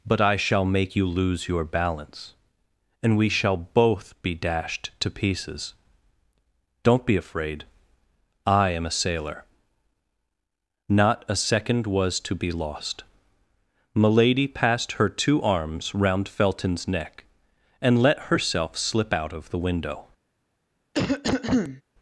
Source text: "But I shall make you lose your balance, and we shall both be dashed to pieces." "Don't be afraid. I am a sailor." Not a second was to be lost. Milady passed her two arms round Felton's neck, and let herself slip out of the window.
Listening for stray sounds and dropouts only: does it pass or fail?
fail